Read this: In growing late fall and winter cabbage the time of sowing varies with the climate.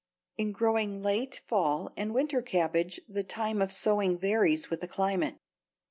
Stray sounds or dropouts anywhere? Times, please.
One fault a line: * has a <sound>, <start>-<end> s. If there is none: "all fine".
all fine